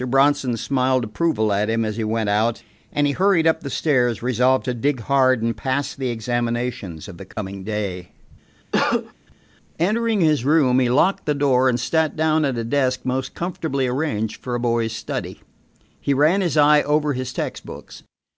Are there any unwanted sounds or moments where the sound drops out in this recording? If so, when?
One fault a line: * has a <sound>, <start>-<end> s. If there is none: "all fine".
* has a dropout, 7.3-7.4 s
* has a cough, 8.7-9.1 s